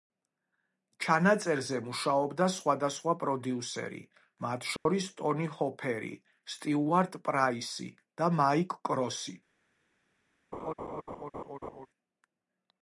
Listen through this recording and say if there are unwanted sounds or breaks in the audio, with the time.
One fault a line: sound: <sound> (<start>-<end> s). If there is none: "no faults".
sound: dropout (4.8-4.9 s)
sound: laugh (10.5-11.9 s)